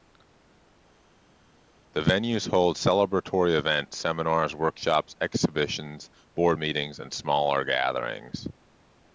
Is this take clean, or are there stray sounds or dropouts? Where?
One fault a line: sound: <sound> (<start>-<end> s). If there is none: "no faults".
no faults